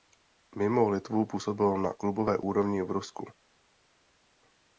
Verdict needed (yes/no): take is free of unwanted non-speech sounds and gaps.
yes